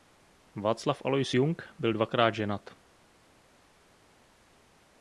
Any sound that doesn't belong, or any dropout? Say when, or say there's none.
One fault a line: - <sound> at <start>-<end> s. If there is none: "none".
none